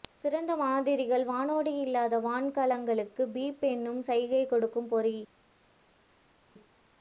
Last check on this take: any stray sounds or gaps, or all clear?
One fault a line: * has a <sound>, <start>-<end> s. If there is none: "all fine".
all fine